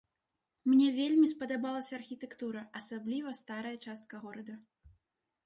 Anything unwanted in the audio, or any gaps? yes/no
no